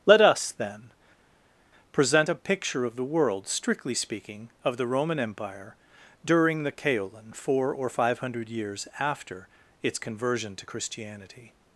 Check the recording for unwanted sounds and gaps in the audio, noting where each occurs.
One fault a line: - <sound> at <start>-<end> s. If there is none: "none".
none